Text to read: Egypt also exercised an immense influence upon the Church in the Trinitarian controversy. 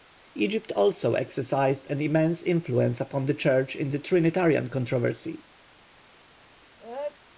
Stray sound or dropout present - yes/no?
yes